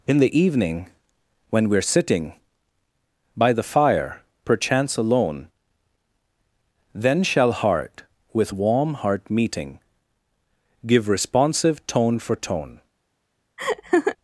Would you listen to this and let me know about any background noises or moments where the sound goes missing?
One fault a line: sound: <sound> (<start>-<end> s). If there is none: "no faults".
sound: laugh (13.6-14.2 s)